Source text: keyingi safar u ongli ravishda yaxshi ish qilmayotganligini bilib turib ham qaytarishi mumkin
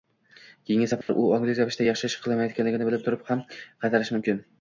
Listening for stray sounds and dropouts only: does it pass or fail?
fail